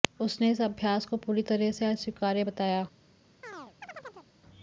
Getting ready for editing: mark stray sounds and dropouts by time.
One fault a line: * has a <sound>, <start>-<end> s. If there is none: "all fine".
* has a chirp, 3.4-4.3 s